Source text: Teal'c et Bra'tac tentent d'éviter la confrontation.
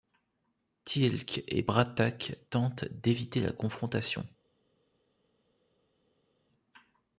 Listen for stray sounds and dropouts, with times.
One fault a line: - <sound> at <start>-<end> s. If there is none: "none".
none